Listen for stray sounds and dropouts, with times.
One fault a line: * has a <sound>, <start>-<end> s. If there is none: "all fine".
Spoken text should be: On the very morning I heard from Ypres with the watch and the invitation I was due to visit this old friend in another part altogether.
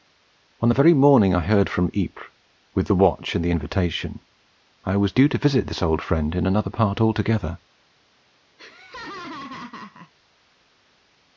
* has a laugh, 8.6-10.1 s